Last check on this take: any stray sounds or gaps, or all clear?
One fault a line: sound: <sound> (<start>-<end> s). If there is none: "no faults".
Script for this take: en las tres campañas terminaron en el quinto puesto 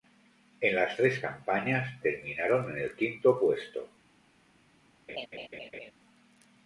sound: laugh (5.1-5.9 s)